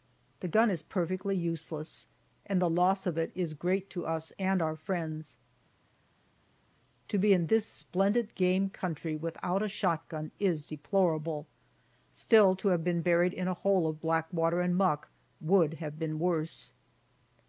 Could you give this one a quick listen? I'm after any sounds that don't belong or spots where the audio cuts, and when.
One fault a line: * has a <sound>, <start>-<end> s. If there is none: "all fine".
all fine